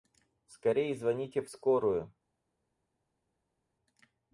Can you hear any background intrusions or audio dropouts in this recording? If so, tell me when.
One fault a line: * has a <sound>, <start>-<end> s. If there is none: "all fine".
all fine